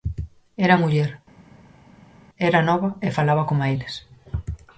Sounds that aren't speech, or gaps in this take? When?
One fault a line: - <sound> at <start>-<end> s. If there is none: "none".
none